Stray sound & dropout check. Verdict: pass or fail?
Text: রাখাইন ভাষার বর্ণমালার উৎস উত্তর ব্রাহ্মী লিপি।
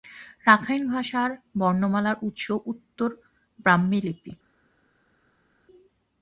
pass